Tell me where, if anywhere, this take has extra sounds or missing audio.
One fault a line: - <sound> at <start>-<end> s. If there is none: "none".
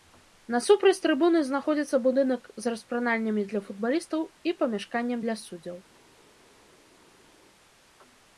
none